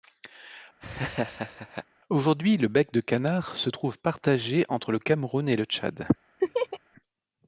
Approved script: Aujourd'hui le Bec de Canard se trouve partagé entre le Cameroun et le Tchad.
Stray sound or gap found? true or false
true